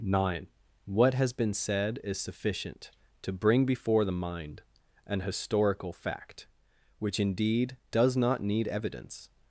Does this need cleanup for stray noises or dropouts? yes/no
no